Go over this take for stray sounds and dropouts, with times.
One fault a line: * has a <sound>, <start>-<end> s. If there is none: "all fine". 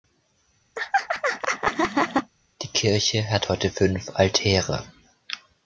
* has a laugh, 0.8-2.3 s